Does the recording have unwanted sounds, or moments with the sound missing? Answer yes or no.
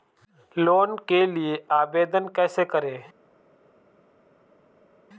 no